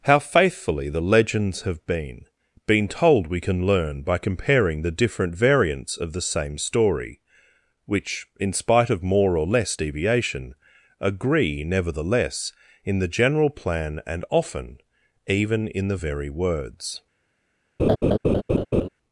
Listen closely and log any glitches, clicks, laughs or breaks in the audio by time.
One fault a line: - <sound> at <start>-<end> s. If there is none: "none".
- laugh at 17.8-18.9 s